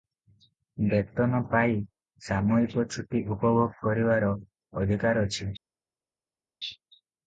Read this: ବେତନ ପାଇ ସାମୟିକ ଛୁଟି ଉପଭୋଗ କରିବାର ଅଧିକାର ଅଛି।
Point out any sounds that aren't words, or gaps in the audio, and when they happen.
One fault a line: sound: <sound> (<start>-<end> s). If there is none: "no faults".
no faults